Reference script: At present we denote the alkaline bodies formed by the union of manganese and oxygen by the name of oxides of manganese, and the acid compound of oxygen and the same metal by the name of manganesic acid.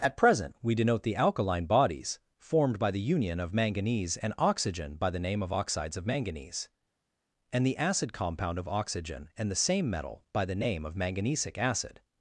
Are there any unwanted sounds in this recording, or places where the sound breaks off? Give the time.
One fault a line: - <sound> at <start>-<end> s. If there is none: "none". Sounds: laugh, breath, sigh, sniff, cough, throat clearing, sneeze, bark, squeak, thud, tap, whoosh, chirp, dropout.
none